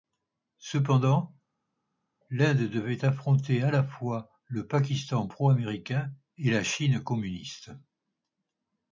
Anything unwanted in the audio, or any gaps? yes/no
no